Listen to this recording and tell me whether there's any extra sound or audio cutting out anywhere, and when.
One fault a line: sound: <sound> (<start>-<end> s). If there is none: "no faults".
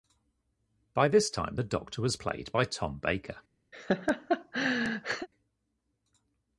sound: laugh (3.7-5.3 s)